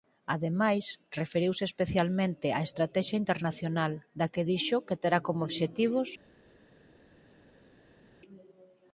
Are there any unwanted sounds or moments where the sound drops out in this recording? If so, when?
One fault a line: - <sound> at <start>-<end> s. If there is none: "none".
none